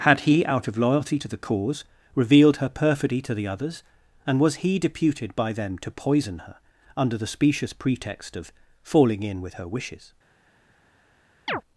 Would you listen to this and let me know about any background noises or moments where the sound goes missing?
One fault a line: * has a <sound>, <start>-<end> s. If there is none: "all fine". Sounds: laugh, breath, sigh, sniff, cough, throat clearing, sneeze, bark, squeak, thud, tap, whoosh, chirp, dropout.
* has a chirp, 11.5-11.6 s